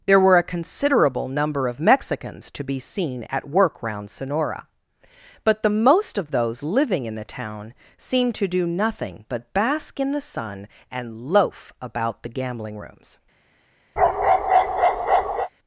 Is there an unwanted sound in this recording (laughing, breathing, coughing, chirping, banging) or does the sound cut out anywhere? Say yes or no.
yes